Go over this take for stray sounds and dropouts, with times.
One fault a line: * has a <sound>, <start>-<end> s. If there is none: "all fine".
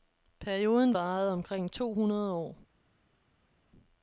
all fine